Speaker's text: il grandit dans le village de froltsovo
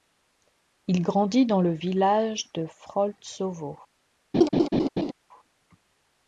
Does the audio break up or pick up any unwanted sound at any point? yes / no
yes